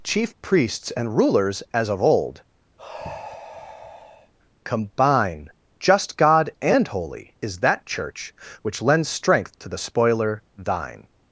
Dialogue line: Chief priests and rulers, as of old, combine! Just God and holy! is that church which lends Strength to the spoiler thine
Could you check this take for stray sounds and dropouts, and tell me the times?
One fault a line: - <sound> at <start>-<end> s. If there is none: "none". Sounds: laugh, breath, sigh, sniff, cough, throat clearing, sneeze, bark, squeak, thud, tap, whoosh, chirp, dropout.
- sigh at 2.8-4.3 s